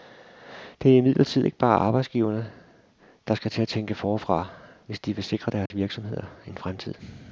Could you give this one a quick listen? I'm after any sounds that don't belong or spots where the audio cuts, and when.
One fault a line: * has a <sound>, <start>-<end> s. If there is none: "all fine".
* has a dropout, 5.7-5.7 s